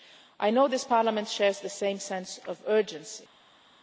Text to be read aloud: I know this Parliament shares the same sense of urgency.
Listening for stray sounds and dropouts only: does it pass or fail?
pass